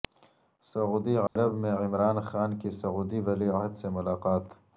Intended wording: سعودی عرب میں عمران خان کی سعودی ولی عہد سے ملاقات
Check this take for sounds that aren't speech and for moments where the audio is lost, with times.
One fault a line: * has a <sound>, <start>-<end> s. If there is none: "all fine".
* has a dropout, 1.3-1.4 s